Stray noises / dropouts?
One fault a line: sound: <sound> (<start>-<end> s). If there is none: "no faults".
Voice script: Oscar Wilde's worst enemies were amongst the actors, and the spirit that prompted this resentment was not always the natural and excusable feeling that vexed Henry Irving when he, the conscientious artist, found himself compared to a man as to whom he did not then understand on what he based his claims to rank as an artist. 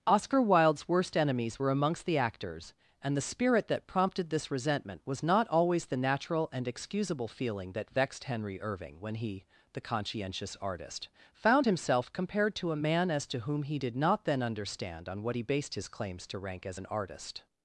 no faults